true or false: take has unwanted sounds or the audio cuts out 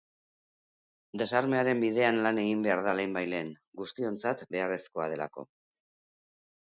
false